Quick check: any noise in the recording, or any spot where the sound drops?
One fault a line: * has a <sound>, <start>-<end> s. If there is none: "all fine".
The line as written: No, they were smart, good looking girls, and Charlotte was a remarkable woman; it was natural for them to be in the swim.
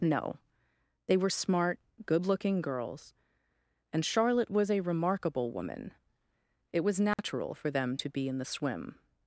* has a dropout, 7.1-7.2 s